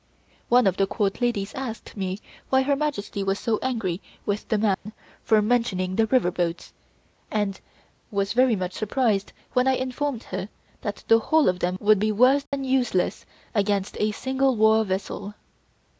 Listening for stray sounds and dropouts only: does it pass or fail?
fail